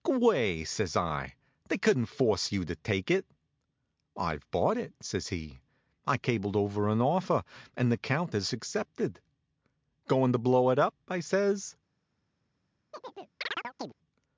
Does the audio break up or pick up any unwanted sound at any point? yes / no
yes